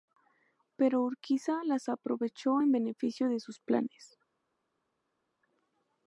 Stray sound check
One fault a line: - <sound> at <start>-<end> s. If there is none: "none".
none